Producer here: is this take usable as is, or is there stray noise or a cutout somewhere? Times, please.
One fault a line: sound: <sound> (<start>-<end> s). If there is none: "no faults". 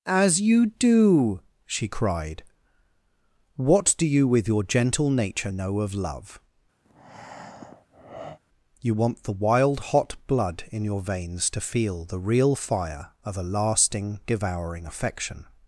sound: breath (6.8-8.4 s)